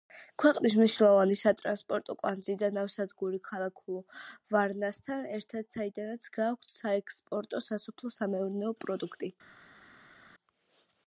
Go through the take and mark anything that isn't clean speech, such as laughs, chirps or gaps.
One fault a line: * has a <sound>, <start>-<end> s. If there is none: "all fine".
all fine